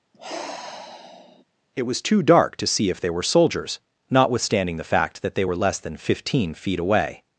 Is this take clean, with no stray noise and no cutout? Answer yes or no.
no